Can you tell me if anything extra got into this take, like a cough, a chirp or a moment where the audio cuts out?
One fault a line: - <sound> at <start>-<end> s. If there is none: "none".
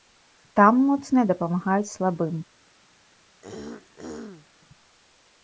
- throat clearing at 3.4-4.5 s